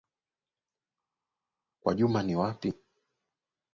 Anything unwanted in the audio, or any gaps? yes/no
no